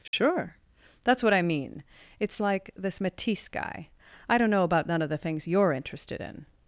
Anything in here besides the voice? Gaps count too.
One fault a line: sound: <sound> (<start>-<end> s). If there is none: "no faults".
sound: dropout (0.1-0.1 s)